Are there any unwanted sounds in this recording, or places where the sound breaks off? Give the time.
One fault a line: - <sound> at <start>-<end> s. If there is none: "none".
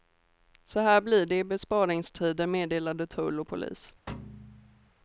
- thud at 4.1-4.9 s